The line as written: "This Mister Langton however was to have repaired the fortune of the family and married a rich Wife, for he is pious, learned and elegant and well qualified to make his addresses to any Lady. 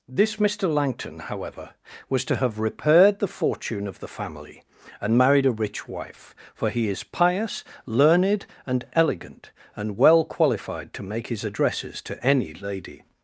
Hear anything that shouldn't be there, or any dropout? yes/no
no